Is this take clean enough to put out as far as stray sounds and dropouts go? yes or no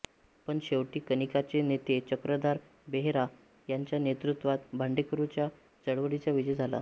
yes